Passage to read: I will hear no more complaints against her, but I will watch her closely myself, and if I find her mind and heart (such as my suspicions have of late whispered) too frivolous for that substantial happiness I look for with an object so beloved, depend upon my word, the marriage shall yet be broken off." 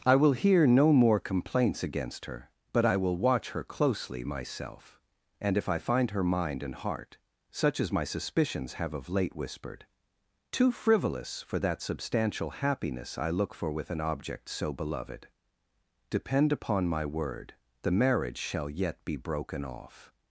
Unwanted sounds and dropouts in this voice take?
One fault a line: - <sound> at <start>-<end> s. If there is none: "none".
none